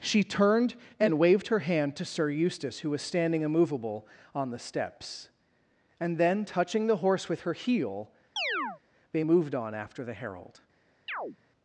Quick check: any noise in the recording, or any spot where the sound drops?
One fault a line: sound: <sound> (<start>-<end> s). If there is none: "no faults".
sound: chirp (8.4-8.8 s)
sound: chirp (11.1-11.4 s)